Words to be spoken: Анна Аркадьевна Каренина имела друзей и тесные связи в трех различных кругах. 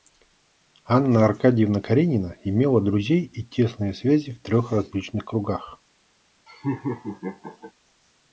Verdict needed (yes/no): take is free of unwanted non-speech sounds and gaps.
no